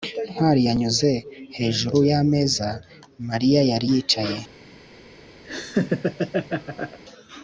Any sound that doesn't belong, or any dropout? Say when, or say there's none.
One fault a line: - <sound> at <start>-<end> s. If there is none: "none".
- laugh at 5.4-7.0 s